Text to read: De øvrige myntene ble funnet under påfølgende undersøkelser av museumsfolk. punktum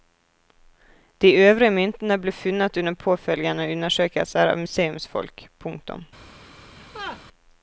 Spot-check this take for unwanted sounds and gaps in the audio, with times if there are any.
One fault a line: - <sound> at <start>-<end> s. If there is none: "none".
- laugh at 6.8-7.2 s